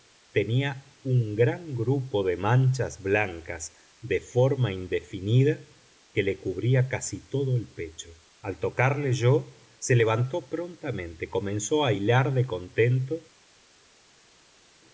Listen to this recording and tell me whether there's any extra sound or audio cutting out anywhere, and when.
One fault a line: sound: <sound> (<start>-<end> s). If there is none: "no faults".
no faults